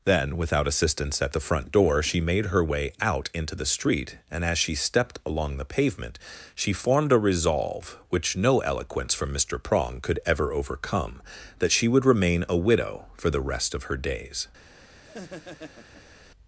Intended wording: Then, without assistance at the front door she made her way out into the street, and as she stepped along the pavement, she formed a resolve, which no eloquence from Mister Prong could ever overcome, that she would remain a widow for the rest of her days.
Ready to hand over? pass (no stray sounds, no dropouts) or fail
fail